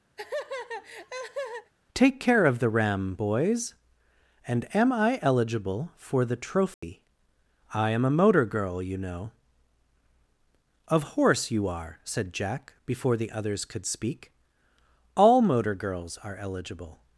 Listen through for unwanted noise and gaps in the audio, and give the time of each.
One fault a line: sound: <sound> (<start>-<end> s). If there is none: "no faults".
sound: laugh (0.2-1.7 s)
sound: dropout (6.7-6.8 s)